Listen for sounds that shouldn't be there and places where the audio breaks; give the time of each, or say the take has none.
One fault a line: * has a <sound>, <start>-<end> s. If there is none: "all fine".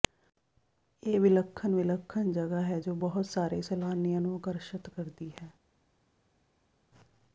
all fine